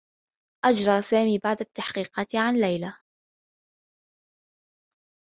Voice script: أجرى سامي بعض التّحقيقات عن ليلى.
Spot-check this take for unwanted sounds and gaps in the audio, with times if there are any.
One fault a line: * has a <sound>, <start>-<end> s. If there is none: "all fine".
all fine